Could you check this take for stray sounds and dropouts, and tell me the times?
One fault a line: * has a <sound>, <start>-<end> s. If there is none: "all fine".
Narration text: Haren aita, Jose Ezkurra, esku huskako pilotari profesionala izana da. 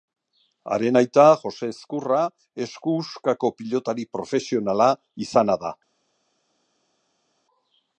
all fine